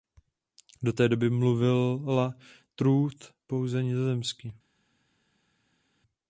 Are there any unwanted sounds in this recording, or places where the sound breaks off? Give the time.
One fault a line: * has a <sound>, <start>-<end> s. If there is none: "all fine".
all fine